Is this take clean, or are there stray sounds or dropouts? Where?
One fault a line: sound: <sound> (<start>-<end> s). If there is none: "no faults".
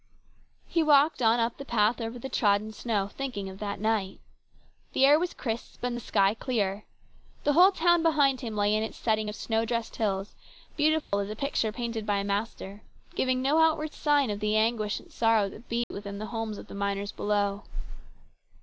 sound: dropout (11.0-11.1 s)
sound: dropout (15.8-15.9 s)